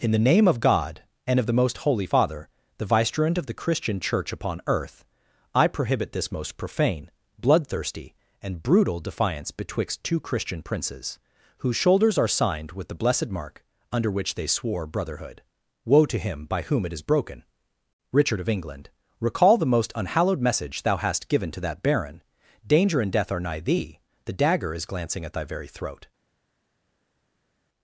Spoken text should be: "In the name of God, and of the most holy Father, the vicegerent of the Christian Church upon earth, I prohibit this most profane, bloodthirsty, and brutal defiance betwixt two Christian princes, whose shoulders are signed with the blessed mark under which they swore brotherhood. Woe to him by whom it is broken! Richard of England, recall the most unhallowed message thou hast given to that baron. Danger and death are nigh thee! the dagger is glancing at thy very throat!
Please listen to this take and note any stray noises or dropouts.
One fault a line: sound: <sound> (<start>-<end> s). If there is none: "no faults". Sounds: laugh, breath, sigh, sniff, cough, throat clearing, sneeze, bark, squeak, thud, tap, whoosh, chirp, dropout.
no faults